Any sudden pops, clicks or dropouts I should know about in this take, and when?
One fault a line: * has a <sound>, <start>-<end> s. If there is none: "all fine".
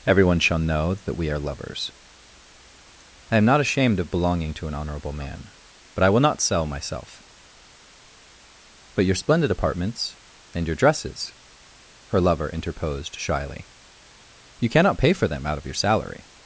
all fine